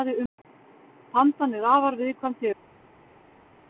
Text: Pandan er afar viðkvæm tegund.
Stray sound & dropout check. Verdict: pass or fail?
pass